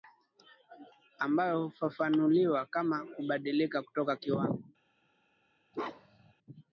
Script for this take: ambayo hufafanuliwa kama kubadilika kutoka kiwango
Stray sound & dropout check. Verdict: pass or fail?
fail